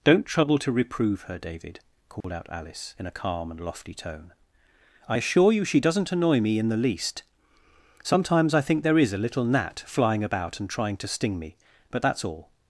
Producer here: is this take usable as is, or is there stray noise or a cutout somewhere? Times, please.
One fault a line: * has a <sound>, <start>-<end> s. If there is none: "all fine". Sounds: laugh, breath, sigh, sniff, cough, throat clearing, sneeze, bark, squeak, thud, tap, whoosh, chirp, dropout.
* has a dropout, 2.2-2.2 s